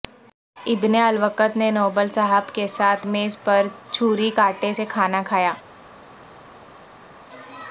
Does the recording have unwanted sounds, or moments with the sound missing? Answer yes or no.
no